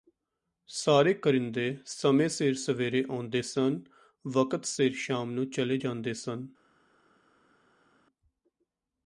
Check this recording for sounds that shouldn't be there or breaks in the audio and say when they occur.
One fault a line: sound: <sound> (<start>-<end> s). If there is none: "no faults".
no faults